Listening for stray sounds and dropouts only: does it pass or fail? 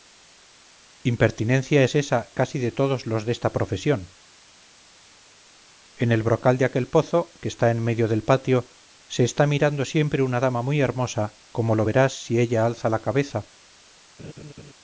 fail